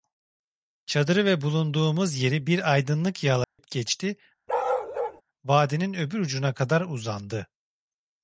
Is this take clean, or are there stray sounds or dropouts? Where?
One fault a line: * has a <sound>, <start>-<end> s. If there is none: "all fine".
* has a dropout, 3.4-3.6 s
* has a bark, 4.5-5.2 s